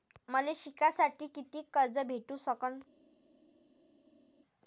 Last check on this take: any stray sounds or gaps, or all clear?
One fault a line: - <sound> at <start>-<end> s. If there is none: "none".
none